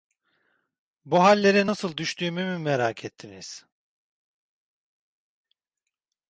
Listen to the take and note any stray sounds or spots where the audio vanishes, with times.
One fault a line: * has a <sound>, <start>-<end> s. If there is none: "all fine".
all fine